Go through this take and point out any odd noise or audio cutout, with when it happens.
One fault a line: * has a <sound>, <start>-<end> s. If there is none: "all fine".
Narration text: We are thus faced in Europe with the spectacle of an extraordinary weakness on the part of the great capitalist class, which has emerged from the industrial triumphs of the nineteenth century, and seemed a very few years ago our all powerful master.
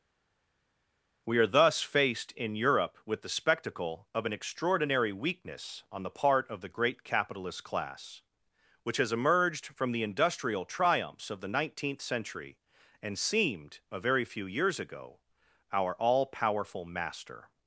all fine